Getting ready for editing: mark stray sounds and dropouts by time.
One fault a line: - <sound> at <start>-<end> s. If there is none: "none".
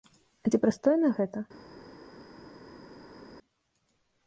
none